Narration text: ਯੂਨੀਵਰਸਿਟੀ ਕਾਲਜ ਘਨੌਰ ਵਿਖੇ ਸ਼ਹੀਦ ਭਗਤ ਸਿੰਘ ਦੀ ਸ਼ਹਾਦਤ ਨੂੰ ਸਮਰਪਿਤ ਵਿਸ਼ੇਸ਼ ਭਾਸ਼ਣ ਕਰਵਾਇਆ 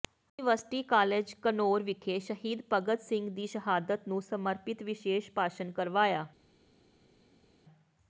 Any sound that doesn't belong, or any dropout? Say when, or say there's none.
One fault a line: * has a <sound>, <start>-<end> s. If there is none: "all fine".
all fine